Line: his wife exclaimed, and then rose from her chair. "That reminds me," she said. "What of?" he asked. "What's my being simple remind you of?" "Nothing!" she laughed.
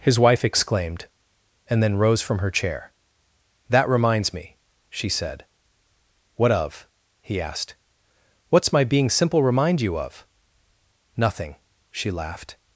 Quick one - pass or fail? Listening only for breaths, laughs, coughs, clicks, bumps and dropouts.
pass